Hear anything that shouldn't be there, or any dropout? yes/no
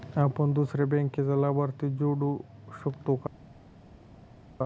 no